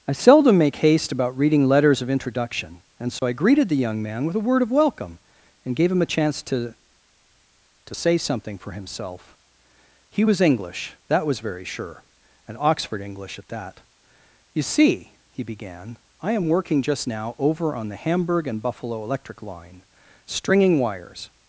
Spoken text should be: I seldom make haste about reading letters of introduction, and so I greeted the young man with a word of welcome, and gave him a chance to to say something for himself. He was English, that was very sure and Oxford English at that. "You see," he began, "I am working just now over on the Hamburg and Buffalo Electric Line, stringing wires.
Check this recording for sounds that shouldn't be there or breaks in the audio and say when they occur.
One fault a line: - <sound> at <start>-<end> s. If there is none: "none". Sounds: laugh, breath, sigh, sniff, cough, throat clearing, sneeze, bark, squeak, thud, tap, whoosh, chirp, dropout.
- dropout at 3.2-3.2 s